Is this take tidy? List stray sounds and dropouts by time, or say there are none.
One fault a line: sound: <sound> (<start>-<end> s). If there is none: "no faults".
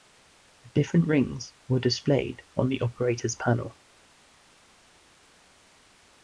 no faults